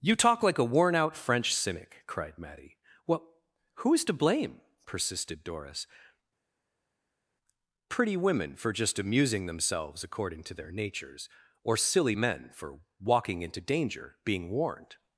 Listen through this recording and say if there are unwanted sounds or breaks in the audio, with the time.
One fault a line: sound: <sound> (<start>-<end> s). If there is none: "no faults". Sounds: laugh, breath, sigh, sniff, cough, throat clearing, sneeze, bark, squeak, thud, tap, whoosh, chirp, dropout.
no faults